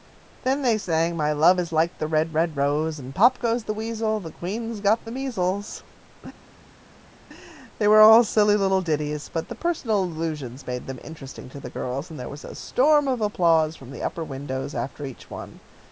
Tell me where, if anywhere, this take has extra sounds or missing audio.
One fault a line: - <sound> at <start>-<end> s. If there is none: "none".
none